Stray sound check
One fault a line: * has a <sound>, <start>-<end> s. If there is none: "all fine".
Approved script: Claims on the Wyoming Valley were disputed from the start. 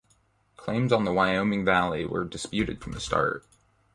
all fine